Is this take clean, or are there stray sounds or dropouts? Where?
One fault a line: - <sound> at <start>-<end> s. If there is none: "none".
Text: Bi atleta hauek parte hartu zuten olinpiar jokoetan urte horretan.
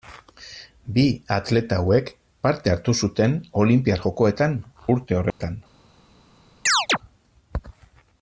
- dropout at 5.3-5.4 s
- chirp at 6.7-7.0 s